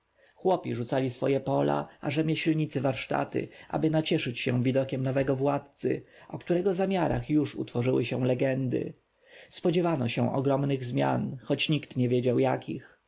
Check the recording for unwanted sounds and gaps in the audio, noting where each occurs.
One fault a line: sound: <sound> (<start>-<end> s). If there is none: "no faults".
no faults